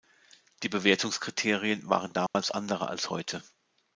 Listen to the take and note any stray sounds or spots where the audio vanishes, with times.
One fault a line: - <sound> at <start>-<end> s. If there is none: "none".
- dropout at 2.3-2.3 s